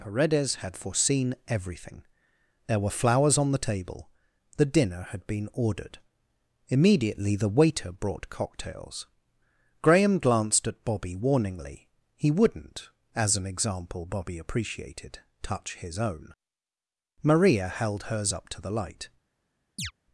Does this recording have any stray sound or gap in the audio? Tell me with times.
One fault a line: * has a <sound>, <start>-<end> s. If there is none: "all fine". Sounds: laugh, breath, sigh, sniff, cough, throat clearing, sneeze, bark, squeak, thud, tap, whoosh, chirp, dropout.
* has a chirp, 19.8-19.9 s